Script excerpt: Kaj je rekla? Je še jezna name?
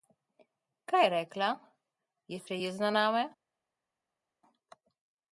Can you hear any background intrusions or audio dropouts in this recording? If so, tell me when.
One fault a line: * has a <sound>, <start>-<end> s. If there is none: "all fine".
all fine